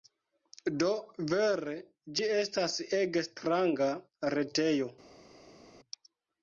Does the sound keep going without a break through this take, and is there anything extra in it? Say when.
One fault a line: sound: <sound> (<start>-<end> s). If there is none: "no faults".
no faults